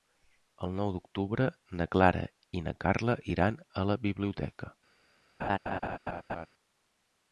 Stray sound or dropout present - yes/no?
yes